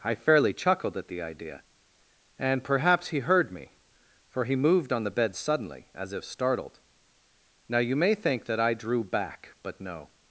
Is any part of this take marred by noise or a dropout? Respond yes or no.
no